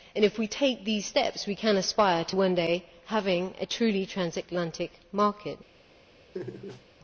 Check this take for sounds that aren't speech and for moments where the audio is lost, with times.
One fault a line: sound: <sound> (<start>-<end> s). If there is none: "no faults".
sound: laugh (6.3-6.8 s)